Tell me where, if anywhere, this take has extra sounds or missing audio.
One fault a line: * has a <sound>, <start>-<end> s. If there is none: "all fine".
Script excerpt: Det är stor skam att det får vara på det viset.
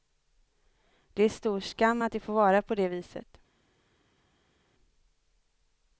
all fine